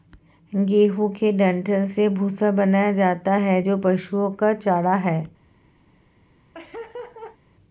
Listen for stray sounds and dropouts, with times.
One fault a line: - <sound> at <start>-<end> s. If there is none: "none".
- laugh at 6.5-7.4 s